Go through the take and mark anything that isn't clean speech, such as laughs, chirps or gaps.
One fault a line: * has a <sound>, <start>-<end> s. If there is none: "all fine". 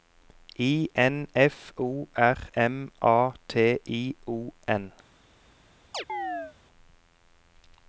* has a chirp, 5.9-6.6 s